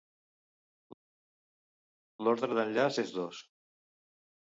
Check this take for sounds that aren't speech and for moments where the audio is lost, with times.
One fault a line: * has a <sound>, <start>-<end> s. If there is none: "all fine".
all fine